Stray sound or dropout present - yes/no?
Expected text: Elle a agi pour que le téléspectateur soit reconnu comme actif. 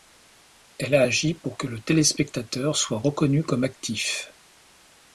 no